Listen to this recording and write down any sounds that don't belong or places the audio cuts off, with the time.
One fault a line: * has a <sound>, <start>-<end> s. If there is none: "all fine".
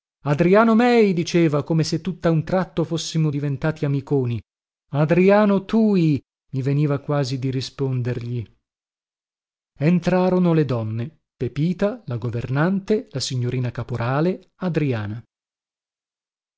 all fine